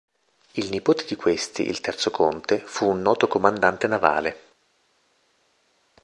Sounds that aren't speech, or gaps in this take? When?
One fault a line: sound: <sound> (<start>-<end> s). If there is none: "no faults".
no faults